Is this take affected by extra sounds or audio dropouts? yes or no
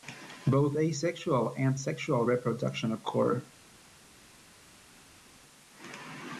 no